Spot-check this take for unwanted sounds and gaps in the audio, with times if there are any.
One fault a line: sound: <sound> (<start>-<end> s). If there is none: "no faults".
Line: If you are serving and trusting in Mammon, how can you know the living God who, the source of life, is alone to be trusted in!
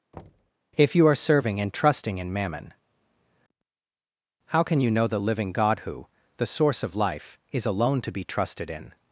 sound: thud (0.1-0.5 s)